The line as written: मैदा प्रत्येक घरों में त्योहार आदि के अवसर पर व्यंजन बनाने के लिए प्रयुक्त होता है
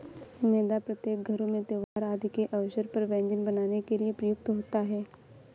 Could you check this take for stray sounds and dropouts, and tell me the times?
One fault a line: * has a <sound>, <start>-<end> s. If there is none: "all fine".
* has a dropout, 1.8-2.0 s